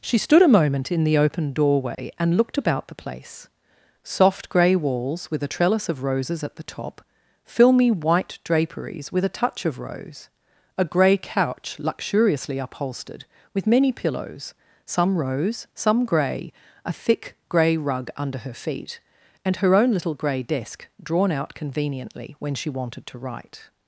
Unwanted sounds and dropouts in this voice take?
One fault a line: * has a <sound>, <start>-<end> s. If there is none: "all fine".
* has a dropout, 1.9-2.0 s